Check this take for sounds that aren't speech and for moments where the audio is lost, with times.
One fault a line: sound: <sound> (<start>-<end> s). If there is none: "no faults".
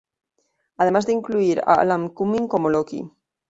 no faults